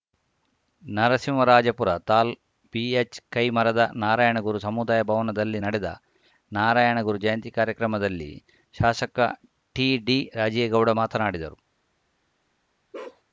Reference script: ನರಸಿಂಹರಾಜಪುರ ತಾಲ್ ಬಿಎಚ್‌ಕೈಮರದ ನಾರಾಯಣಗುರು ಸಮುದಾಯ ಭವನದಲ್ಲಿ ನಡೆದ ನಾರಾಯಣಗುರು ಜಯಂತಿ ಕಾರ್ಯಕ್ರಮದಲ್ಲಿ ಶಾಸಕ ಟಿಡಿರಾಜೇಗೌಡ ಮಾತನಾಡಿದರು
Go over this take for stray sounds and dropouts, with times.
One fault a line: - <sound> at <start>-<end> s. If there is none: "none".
- bark at 12.9-13.2 s